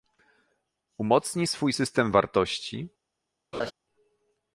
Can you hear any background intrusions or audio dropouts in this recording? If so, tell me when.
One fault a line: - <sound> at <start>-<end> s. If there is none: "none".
- laugh at 3.5-3.7 s